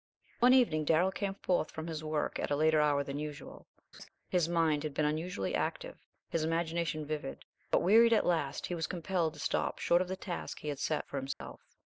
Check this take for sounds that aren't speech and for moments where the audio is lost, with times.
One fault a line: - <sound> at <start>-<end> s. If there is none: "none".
- laugh at 3.9-4.1 s
- dropout at 11.3-11.4 s